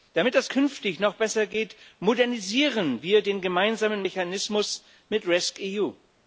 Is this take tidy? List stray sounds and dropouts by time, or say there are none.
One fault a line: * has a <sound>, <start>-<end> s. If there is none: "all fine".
all fine